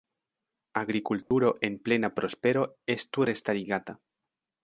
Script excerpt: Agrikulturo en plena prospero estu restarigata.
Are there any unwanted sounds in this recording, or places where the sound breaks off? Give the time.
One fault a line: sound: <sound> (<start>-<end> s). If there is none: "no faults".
sound: dropout (1.2-1.3 s)